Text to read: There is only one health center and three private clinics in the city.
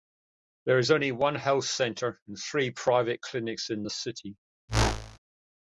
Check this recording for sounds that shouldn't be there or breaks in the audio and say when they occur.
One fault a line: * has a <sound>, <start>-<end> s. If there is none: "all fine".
* has a whoosh, 4.7-5.2 s